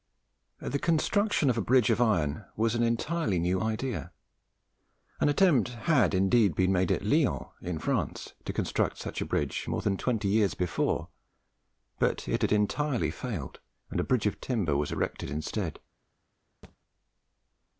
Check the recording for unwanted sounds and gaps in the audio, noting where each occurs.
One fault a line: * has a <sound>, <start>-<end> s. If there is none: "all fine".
* has a thud, 16.6-16.8 s